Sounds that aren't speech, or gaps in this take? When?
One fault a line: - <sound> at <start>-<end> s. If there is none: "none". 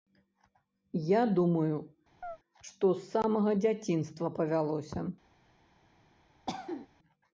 - chirp at 2.2-2.4 s
- cough at 6.5-6.9 s